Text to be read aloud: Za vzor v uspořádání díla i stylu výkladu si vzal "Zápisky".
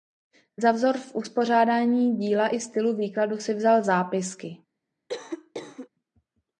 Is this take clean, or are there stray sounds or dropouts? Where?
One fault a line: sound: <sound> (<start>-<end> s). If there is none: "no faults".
sound: cough (5.1-5.9 s)